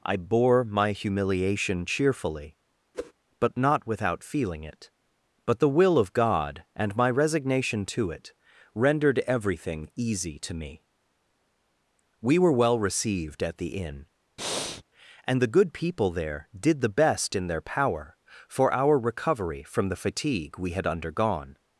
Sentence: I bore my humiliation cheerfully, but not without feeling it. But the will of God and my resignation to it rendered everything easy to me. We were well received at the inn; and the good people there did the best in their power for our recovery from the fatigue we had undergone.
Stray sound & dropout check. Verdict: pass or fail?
fail